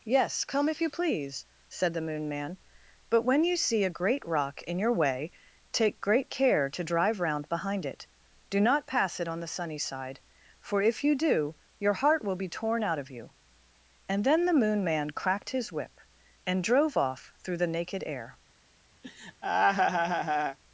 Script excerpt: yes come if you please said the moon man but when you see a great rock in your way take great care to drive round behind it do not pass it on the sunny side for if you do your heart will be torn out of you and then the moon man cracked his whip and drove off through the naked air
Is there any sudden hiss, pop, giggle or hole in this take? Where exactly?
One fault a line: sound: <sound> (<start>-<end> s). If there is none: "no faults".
sound: laugh (19.0-20.6 s)